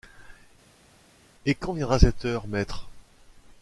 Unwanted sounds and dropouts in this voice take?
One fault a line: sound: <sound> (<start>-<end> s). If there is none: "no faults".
no faults